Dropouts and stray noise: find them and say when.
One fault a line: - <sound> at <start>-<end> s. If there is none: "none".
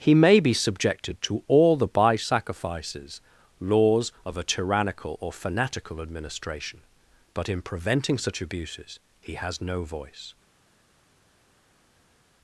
none